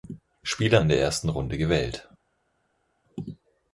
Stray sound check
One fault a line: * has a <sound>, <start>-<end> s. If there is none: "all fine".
all fine